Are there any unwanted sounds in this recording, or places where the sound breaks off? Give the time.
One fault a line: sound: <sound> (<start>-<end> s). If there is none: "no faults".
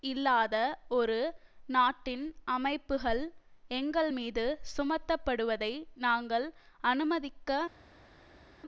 no faults